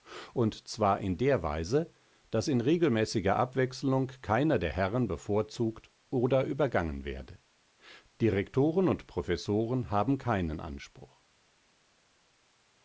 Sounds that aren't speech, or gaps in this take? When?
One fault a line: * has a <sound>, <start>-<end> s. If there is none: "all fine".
all fine